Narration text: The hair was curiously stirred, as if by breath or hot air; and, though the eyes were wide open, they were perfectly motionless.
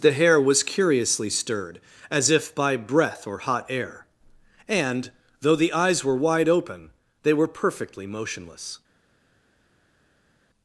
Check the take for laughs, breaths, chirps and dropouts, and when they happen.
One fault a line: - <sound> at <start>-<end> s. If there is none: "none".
none